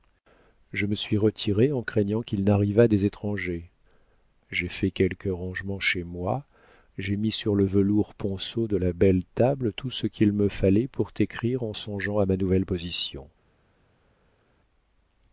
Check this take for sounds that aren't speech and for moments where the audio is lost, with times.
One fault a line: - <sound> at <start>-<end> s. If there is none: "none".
none